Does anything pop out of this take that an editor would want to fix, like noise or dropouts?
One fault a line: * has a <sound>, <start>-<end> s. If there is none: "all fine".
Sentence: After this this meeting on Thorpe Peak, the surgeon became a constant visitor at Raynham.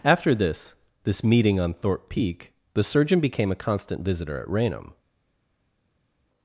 all fine